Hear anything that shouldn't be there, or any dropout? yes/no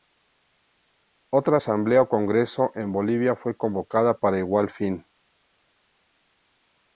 no